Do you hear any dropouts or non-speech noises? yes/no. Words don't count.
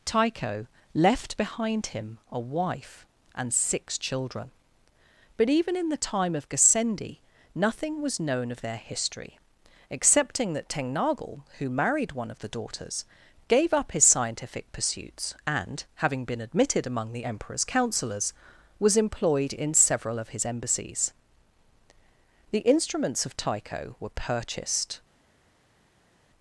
no